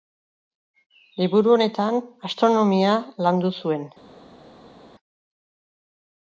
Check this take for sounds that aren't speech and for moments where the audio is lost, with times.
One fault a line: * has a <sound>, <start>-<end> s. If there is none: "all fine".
all fine